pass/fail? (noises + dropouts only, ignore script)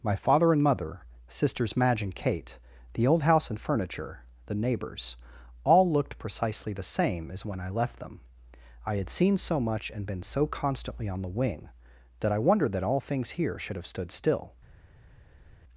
pass